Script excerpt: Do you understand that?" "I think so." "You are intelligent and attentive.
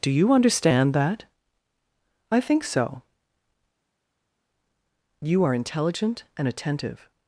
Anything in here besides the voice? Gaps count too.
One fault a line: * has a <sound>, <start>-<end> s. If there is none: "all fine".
all fine